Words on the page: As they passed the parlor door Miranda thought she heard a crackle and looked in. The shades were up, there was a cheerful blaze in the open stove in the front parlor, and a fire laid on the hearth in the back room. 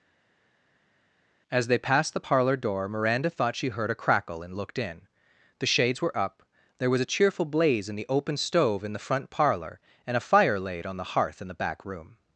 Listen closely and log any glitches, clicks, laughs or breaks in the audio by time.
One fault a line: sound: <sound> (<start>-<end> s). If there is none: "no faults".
no faults